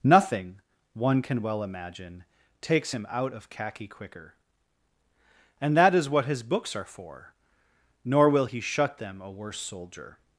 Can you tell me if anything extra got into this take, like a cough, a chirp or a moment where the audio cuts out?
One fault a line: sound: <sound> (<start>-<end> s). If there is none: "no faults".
no faults